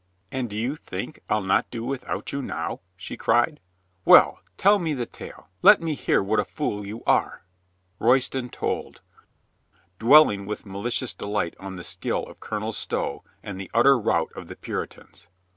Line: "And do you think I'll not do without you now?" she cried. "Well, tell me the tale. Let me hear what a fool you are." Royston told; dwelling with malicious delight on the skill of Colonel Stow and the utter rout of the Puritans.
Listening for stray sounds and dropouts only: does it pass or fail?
pass